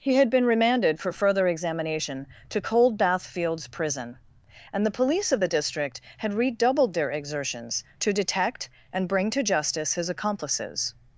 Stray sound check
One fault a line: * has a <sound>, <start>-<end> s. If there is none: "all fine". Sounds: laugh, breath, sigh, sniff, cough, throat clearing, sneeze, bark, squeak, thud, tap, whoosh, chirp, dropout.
all fine